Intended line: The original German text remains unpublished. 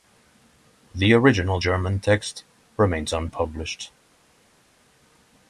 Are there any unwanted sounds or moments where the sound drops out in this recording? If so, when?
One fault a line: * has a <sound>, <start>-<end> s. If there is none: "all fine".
all fine